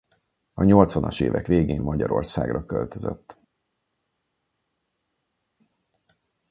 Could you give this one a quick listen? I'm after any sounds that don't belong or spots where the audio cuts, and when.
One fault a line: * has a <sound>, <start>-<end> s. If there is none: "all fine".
all fine